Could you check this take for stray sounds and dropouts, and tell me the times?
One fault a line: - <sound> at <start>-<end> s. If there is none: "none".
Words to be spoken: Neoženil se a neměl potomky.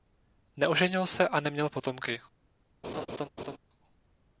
- laugh at 2.8-3.6 s